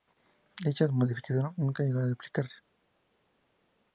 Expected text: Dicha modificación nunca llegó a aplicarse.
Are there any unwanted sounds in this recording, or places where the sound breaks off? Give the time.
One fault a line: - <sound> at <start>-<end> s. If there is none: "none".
none